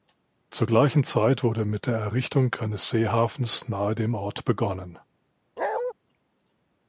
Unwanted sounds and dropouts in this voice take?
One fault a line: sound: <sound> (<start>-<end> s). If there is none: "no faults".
sound: bark (5.6-5.9 s)